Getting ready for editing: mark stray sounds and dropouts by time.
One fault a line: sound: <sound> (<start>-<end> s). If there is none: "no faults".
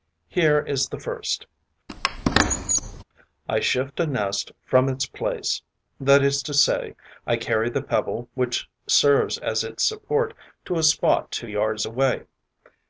sound: squeak (1.9-3.0 s)